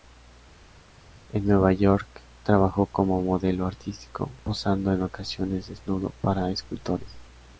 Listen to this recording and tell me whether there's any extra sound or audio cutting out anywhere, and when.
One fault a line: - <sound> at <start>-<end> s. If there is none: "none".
none